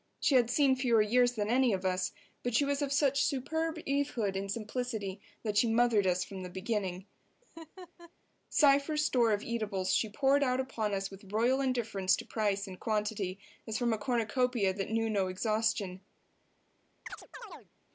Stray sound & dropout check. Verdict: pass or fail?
fail